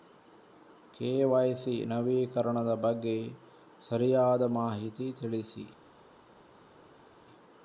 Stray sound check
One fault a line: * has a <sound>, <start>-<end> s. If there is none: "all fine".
all fine